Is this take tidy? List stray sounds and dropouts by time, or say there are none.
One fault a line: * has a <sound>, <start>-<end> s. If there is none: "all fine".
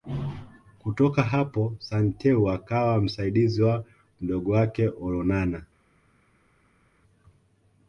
all fine